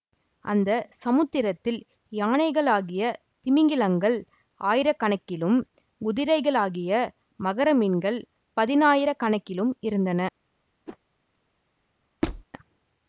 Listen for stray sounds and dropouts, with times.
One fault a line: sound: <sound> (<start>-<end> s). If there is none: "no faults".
sound: whoosh (10.9-11.0 s)
sound: squeak (12.2-12.4 s)